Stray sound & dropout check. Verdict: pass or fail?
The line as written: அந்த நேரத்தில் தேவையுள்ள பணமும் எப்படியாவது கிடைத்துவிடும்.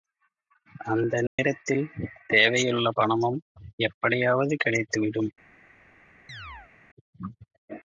fail